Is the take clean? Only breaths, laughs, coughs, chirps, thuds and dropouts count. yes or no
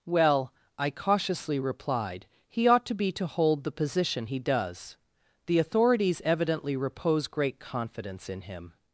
yes